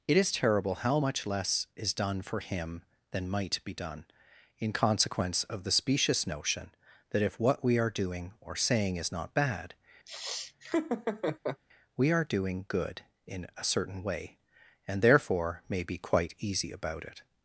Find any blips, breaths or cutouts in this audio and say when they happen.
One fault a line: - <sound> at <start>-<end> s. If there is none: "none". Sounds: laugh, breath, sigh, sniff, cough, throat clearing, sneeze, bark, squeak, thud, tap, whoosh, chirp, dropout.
- laugh at 10.1-11.6 s